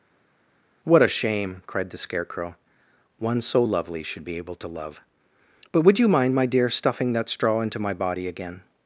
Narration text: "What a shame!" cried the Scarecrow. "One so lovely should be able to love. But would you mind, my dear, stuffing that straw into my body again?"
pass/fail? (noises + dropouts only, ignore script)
pass